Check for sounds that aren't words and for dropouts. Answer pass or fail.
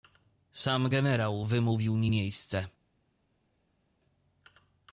pass